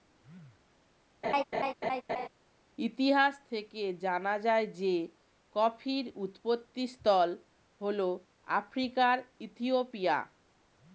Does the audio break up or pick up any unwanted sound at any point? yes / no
yes